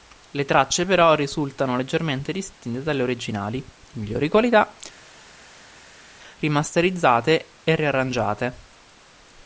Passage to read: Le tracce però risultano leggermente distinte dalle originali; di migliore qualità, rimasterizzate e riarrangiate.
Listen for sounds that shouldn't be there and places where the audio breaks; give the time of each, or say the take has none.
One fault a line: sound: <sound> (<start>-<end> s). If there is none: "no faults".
no faults